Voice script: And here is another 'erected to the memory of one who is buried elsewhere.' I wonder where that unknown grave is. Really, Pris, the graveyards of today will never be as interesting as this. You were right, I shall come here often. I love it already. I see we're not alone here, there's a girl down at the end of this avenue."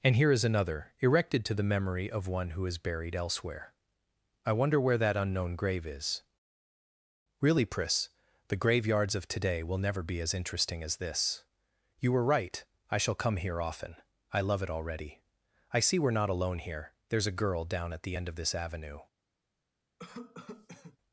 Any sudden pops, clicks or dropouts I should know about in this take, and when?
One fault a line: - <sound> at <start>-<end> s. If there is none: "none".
- cough at 20.0-21.0 s